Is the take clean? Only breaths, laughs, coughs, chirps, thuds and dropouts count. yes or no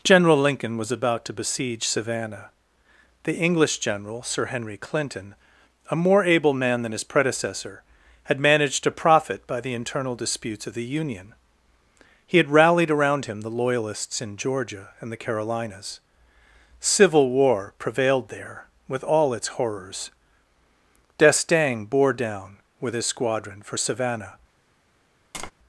no